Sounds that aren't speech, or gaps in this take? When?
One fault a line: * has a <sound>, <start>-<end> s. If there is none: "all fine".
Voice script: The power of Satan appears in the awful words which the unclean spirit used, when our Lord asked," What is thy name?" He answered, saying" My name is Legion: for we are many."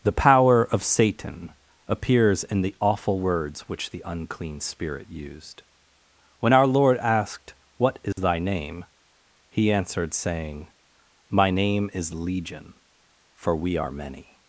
* has a dropout, 8.1-8.2 s